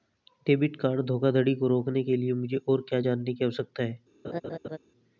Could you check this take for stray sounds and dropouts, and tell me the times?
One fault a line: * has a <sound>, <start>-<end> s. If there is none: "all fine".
* has a laugh, 4.2-4.8 s